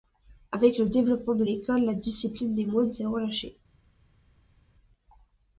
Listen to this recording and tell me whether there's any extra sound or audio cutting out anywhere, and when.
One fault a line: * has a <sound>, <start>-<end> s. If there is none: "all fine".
all fine